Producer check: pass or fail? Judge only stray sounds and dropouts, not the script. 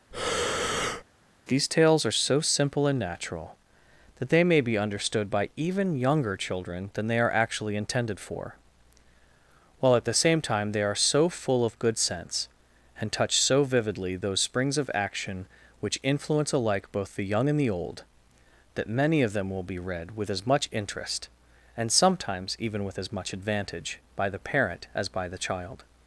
fail